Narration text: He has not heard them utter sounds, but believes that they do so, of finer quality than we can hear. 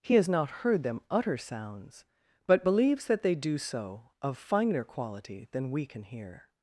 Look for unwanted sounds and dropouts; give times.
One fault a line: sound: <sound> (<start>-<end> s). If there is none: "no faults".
no faults